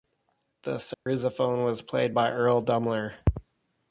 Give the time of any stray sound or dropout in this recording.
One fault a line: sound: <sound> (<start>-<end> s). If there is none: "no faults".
sound: dropout (0.9-1.1 s)